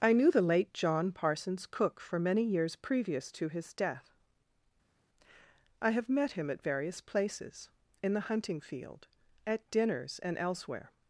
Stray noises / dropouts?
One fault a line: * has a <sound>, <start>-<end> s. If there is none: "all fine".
all fine